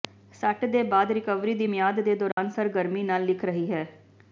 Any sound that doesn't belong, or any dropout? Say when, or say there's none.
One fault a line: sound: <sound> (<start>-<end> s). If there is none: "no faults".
sound: dropout (2.3-2.4 s)